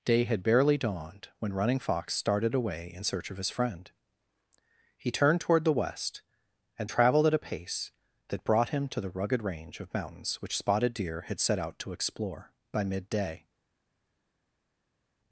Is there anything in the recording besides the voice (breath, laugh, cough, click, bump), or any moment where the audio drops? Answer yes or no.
no